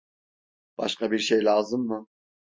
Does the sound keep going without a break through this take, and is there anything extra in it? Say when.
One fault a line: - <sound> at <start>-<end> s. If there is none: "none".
none